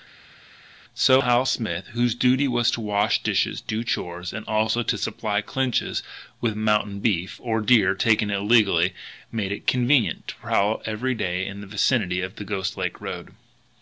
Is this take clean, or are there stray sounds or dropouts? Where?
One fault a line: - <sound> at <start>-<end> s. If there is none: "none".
none